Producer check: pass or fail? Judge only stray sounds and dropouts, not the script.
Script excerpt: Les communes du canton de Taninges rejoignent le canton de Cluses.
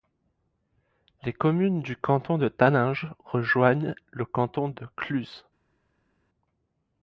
pass